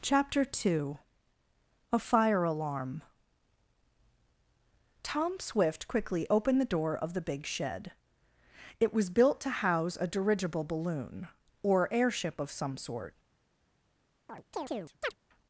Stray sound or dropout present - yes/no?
yes